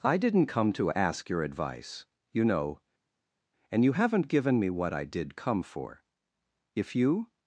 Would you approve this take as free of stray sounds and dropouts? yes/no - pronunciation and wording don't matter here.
yes